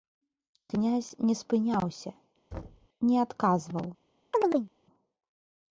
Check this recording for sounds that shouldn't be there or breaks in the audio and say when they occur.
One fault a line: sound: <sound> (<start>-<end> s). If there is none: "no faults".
sound: thud (2.5-2.9 s)
sound: chirp (4.3-4.7 s)